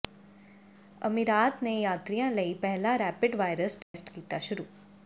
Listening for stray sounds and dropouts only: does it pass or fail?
fail